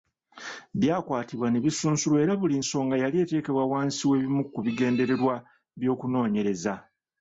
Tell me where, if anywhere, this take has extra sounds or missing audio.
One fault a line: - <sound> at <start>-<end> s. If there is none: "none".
none